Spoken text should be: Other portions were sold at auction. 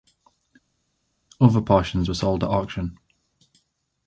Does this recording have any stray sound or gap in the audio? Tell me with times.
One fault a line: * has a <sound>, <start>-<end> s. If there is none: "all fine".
all fine